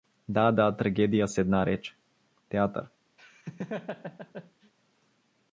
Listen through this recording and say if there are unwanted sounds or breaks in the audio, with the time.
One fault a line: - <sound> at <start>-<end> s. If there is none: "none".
- laugh at 3.2-4.7 s